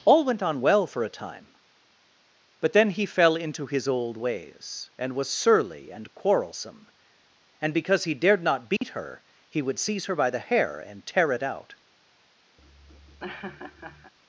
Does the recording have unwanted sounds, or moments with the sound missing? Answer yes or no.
yes